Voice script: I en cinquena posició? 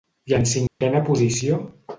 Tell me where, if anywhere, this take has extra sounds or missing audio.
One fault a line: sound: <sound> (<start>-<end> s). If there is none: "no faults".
sound: dropout (0.7-0.8 s)